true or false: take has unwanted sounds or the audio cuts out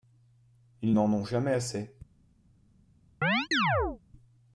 true